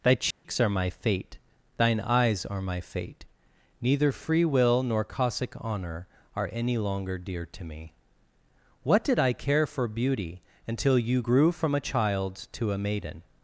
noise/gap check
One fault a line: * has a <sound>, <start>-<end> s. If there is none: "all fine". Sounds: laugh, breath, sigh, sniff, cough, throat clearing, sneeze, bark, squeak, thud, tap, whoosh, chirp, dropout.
* has a dropout, 0.3-0.4 s